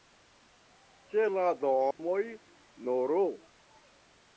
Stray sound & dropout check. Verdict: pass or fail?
fail